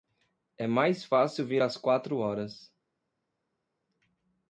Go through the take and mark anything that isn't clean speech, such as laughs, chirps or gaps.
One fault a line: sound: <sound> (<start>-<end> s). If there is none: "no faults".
no faults